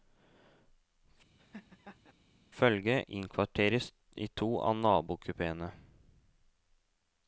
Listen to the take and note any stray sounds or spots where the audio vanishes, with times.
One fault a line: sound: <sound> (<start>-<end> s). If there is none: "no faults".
sound: laugh (1.4-2.1 s)